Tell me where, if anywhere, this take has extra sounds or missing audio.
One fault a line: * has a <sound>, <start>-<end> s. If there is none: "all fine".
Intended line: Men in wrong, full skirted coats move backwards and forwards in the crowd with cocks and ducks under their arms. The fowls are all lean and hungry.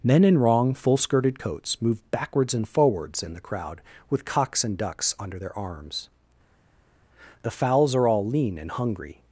all fine